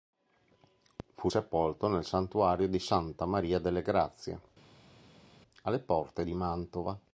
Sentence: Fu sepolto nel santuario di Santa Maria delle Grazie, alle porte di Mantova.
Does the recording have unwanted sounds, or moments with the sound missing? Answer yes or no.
no